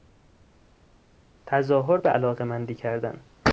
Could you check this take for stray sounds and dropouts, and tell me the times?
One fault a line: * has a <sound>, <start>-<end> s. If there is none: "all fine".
all fine